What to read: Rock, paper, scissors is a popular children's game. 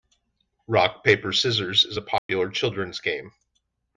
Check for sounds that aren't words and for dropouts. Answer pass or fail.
fail